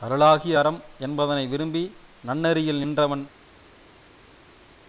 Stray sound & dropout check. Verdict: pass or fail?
pass